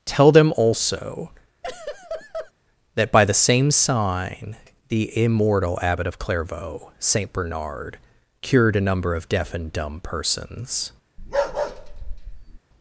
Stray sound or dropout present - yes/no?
yes